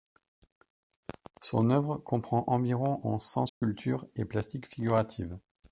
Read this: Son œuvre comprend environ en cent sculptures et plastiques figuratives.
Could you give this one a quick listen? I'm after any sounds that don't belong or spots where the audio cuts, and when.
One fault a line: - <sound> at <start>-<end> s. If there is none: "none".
- dropout at 3.5-3.6 s